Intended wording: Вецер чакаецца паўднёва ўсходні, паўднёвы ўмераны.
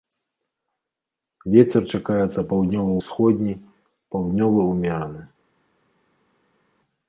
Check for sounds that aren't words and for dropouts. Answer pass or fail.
pass